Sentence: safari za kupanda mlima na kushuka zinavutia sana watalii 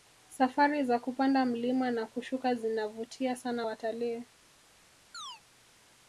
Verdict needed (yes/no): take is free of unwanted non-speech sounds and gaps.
no